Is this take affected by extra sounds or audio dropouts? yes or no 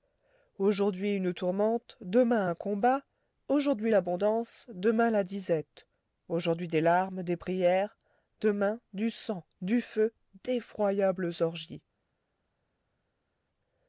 no